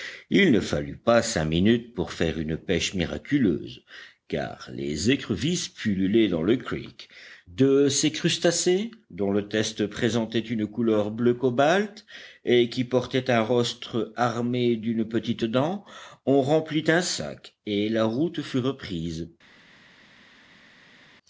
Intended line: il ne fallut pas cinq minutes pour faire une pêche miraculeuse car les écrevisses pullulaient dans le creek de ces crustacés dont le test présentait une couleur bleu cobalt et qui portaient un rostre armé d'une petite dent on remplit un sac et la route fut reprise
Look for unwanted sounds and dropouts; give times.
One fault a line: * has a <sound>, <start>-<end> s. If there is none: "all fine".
all fine